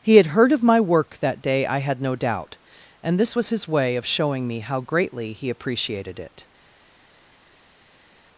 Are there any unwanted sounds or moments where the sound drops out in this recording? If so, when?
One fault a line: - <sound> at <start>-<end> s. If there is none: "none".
none